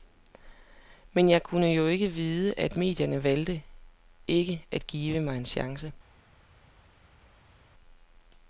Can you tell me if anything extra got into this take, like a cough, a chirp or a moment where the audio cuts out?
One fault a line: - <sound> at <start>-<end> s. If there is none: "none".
none